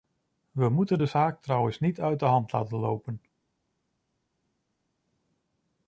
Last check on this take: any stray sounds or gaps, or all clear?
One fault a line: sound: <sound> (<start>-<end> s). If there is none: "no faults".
no faults